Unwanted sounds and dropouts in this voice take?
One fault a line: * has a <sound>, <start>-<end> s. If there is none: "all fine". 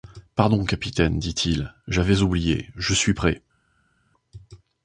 all fine